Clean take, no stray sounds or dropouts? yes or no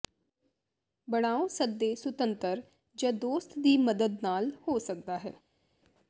yes